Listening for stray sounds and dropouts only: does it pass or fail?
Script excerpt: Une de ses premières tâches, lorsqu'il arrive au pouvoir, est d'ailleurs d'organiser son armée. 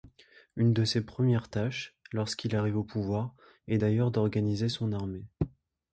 pass